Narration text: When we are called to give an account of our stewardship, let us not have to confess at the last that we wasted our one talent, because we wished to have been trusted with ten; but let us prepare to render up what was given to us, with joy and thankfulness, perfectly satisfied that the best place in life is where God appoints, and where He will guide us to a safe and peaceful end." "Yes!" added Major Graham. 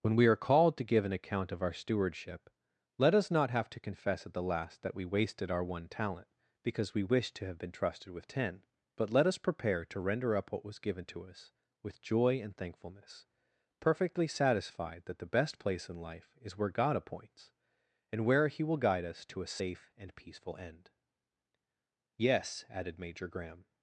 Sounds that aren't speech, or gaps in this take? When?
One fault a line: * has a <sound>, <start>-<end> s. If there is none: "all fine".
all fine